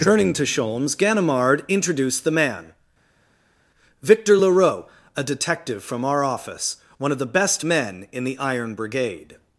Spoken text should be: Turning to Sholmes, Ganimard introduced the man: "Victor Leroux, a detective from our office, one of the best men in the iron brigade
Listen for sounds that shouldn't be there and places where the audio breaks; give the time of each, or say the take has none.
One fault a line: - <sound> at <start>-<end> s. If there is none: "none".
none